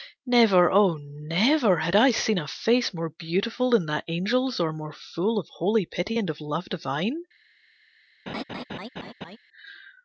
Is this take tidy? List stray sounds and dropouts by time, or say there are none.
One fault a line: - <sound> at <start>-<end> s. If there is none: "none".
- laugh at 8.3-9.4 s